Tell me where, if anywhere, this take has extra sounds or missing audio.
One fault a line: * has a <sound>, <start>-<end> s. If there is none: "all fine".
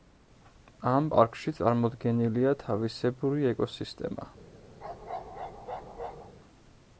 * has a bark, 4.8-6.3 s